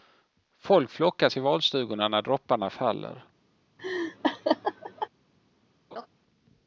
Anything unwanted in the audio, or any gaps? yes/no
yes